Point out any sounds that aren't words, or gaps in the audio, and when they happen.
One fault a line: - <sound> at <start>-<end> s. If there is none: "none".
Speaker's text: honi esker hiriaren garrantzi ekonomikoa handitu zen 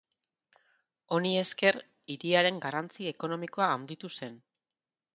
none